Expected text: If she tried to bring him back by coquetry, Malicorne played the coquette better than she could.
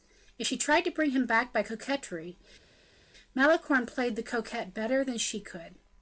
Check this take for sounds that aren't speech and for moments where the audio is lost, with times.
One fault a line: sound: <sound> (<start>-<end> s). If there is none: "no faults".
no faults